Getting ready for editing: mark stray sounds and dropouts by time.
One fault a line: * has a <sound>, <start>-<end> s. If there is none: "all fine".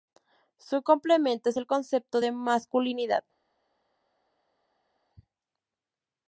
all fine